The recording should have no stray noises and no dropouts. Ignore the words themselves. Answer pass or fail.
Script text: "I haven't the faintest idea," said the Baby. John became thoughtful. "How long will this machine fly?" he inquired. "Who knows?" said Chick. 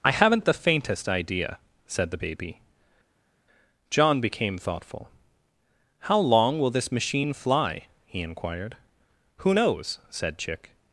pass